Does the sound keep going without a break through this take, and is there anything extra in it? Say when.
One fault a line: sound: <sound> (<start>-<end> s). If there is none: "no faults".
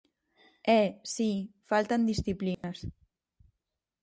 sound: dropout (2.5-2.6 s)